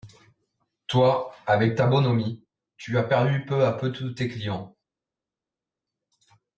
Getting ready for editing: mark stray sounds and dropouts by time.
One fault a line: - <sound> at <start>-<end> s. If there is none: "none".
none